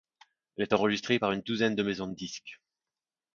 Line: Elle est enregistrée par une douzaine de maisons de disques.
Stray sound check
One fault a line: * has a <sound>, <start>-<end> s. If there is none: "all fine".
all fine